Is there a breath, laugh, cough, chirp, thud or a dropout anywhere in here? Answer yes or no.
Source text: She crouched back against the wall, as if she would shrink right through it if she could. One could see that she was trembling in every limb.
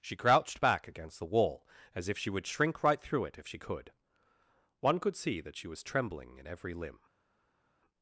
no